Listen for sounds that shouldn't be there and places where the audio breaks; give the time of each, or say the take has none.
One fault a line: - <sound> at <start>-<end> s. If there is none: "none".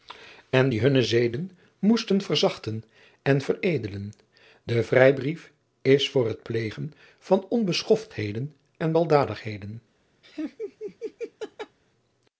- laugh at 10.2-11.8 s